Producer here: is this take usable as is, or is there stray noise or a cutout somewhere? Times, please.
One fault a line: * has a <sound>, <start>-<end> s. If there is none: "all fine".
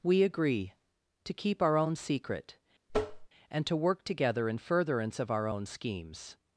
* has a tap, 2.9-3.3 s